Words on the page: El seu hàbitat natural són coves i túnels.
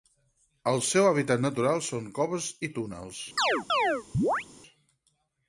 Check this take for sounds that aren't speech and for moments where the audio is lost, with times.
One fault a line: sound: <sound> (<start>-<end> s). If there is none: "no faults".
sound: chirp (3.4-4.5 s)